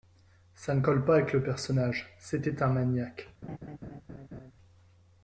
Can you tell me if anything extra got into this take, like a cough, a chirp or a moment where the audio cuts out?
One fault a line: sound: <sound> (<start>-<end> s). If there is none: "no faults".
sound: laugh (3.4-4.5 s)